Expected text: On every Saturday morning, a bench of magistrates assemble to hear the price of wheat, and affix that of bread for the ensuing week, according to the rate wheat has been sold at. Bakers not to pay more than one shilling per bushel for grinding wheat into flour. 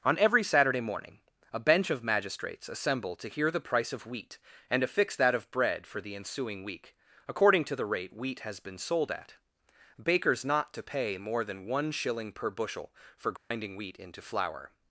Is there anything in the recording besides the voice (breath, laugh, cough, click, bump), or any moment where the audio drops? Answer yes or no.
yes